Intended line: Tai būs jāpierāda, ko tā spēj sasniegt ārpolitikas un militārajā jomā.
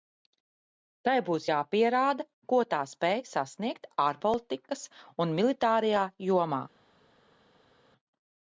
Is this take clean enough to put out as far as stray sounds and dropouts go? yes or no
yes